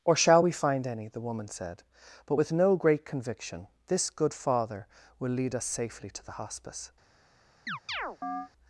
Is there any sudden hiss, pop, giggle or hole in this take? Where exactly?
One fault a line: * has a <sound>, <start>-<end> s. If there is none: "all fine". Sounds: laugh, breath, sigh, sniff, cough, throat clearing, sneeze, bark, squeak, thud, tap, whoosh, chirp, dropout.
* has a chirp, 7.7-8.5 s